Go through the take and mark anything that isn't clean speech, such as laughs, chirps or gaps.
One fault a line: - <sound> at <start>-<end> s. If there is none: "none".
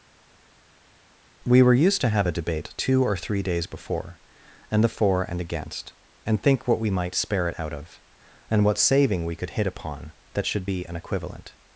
none